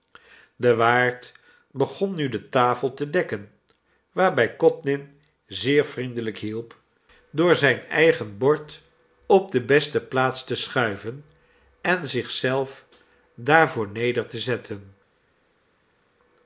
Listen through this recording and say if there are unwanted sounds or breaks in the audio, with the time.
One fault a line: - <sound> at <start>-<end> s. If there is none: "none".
none